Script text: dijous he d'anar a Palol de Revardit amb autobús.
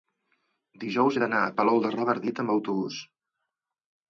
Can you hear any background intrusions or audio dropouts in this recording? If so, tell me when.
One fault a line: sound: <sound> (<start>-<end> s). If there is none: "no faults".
no faults